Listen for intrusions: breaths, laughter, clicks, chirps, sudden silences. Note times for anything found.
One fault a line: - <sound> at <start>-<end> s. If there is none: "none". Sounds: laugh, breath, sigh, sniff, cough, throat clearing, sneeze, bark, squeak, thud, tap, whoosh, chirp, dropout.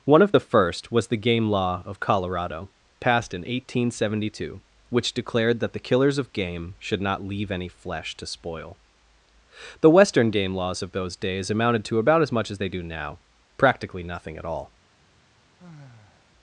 - sigh at 15.6-16.3 s